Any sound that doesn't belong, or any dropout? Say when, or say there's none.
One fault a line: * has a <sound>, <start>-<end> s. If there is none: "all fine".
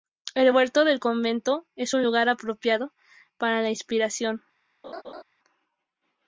* has a laugh, 4.8-5.2 s